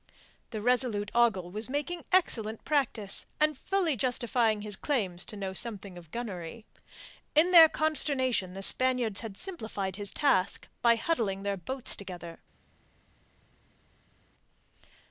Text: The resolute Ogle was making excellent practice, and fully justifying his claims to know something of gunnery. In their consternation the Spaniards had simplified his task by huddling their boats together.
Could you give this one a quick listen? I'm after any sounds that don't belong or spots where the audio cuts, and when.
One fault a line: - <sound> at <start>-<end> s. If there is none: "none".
none